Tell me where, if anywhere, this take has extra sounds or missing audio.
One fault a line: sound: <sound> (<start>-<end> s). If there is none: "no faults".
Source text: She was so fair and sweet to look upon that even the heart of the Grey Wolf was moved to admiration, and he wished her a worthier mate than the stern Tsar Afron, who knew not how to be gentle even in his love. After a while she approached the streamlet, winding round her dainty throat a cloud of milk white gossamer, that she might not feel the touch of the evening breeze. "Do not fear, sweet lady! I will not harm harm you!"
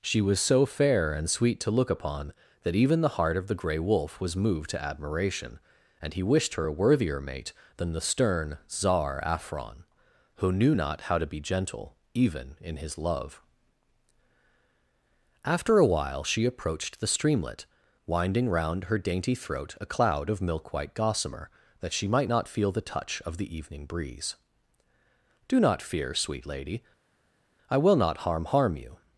no faults